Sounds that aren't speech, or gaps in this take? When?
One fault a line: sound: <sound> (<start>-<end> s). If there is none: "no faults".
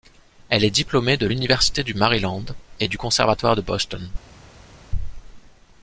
no faults